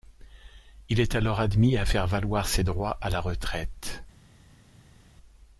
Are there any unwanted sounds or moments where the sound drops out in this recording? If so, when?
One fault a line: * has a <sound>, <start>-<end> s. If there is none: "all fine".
all fine